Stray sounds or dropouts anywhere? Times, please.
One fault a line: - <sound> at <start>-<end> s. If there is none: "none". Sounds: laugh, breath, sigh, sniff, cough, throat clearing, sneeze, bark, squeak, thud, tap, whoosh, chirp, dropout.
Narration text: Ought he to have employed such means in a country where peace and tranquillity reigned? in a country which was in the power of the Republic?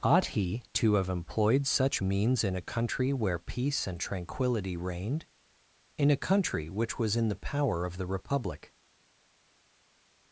none